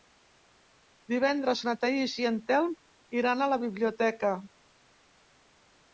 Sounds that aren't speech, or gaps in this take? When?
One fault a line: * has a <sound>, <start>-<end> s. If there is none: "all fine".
all fine